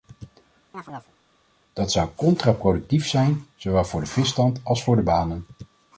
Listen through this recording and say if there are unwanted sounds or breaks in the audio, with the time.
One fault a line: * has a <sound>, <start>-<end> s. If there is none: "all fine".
* has a chirp, 0.7-1.1 s